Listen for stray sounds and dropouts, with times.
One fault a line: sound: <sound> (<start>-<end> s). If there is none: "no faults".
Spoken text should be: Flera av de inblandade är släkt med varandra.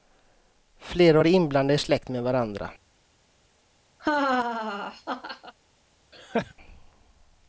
sound: laugh (4.0-5.5 s)
sound: laugh (6.1-6.5 s)